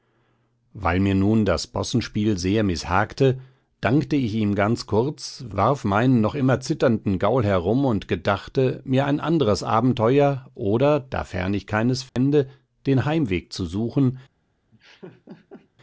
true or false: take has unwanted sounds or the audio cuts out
true